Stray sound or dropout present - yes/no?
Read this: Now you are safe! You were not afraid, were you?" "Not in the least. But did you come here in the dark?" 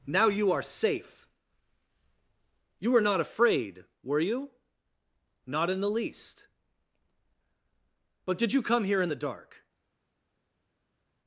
no